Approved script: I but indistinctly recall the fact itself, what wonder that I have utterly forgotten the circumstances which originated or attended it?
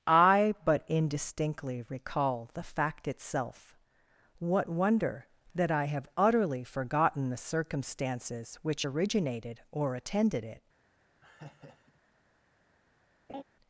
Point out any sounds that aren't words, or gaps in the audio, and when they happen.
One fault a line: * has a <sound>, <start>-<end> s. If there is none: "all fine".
* has a laugh, 11.2-12.0 s
* has a laugh, 13.3-13.4 s